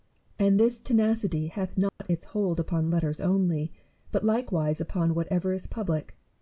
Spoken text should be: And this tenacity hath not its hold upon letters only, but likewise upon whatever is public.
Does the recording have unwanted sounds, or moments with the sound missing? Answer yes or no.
yes